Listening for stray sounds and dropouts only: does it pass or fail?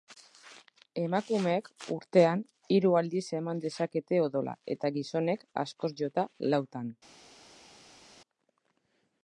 pass